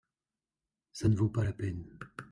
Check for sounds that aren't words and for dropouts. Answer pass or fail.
pass